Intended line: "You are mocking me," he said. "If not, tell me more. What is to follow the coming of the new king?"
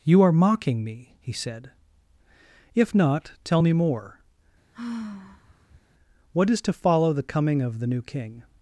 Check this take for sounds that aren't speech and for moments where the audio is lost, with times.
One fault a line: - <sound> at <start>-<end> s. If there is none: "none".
- sigh at 4.7-5.8 s